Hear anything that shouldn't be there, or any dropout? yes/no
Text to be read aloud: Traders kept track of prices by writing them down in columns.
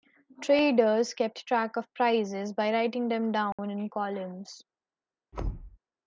yes